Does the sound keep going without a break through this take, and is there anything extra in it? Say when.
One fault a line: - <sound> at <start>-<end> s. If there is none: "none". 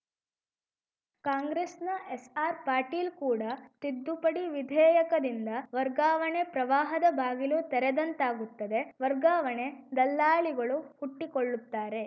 none